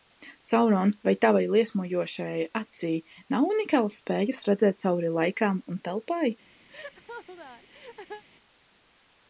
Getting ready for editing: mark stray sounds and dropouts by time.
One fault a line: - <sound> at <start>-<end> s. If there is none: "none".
- laugh at 6.7-8.2 s